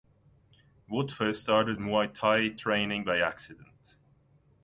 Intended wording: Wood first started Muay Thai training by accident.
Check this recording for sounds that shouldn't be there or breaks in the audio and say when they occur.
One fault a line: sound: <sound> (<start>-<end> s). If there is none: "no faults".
no faults